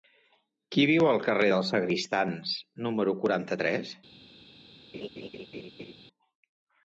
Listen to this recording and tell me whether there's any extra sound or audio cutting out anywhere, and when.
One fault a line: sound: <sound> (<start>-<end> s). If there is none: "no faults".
sound: laugh (4.9-5.9 s)